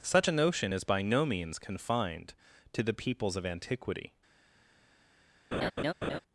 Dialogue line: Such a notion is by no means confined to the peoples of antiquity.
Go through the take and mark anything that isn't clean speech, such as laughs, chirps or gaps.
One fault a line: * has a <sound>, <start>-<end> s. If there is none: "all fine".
* has a laugh, 5.5-6.2 s